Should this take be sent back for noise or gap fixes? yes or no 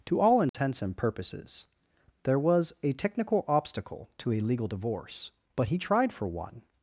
yes